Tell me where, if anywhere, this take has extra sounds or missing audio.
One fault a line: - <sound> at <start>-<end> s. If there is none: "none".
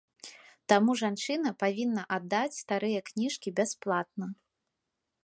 none